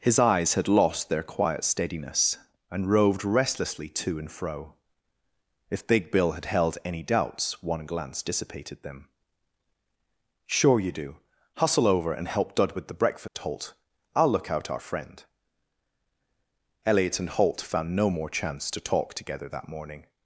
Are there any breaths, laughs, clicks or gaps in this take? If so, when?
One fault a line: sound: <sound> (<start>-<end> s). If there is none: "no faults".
sound: dropout (13.3-13.4 s)